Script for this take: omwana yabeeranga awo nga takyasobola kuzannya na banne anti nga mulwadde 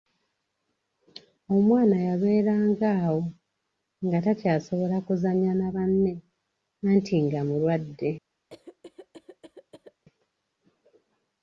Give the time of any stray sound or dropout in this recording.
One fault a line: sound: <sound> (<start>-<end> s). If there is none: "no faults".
sound: cough (8.5-10.0 s)